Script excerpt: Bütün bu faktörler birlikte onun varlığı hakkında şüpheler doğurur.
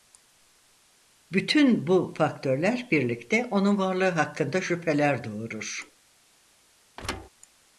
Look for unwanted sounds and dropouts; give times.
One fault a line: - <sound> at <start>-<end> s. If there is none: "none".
- thud at 7.0-7.3 s